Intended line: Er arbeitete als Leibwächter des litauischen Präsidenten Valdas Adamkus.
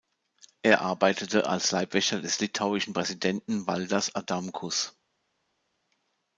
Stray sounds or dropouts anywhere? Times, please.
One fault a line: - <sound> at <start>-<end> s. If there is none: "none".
none